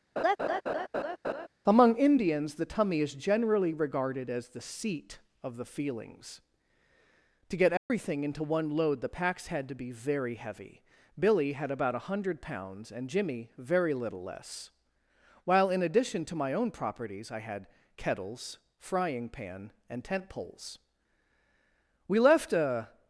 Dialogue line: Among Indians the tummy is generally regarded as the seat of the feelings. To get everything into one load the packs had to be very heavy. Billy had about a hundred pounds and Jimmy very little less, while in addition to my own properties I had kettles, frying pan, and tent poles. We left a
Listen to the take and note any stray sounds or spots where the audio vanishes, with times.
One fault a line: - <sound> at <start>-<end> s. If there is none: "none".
- laugh at 0.2-1.5 s
- dropout at 7.8-7.9 s